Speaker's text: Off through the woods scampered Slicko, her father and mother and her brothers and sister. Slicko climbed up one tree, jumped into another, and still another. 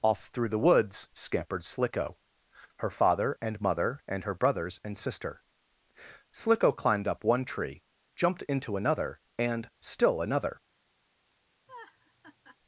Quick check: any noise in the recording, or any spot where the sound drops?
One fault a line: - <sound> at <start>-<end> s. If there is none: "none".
- laugh at 11.7-12.6 s